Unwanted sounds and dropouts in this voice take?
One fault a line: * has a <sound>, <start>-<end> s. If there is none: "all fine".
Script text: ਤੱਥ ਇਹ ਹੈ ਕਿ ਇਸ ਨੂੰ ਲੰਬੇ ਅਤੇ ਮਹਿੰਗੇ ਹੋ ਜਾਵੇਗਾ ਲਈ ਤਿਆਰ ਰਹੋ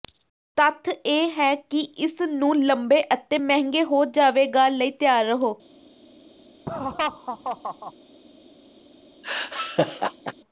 * has a laugh, 6.7-7.9 s
* has a laugh, 9.2-10.3 s